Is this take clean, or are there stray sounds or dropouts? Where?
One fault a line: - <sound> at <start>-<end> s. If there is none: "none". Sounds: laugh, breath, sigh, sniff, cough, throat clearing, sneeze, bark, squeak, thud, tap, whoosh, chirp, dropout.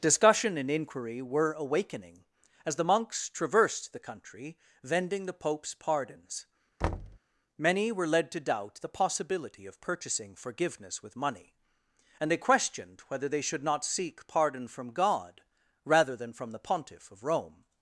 - thud at 6.8-7.2 s